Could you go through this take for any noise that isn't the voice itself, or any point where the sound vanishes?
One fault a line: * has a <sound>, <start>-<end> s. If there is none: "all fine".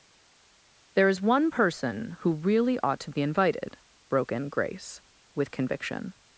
all fine